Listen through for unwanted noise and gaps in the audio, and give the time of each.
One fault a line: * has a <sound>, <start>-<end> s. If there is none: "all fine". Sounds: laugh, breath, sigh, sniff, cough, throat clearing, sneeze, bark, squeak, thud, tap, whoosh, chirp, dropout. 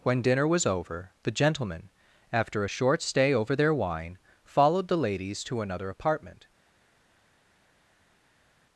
all fine